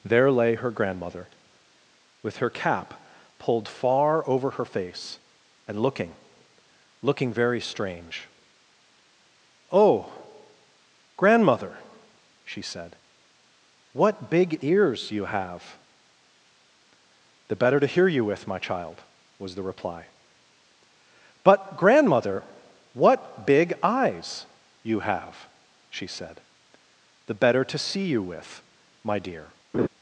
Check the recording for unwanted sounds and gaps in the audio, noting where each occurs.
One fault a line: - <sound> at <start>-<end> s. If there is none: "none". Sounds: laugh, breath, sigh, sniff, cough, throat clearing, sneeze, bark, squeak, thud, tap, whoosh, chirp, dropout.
- laugh at 29.7-29.9 s